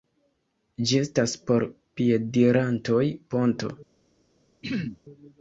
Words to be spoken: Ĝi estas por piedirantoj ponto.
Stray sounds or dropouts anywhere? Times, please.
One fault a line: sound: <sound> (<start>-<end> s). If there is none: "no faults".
sound: throat clearing (4.6-5.0 s)